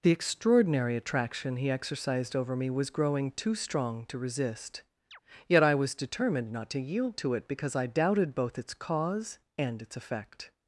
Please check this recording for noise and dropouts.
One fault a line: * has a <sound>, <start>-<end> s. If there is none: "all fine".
* has a chirp, 5.1-5.2 s